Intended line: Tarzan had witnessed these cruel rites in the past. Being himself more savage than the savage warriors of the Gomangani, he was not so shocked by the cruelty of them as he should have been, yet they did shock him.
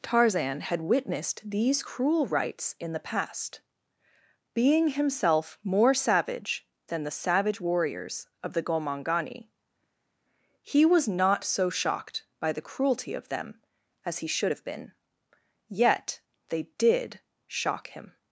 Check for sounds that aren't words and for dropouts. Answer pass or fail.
pass